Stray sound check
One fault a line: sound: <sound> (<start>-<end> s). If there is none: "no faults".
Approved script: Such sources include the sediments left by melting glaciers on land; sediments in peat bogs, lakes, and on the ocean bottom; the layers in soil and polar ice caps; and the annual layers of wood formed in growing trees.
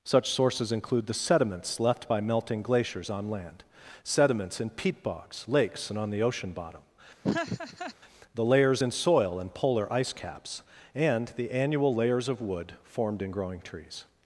sound: laugh (7.2-7.9 s)